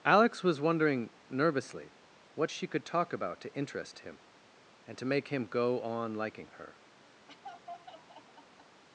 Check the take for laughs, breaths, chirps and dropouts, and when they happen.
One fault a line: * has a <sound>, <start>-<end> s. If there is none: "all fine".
* has a laugh, 7.3-8.8 s